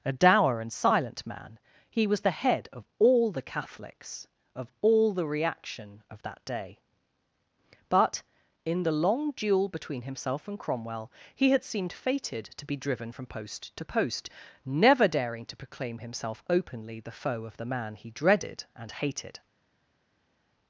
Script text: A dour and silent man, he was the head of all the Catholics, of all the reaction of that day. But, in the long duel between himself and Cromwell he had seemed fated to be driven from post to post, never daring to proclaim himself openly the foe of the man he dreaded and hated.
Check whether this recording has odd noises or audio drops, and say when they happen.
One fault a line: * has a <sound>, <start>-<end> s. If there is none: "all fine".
all fine